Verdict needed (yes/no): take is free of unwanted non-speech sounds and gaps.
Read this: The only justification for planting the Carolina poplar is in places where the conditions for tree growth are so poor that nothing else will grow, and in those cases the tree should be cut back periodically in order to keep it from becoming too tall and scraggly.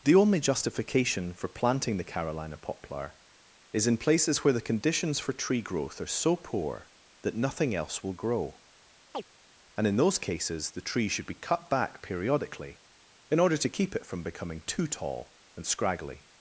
no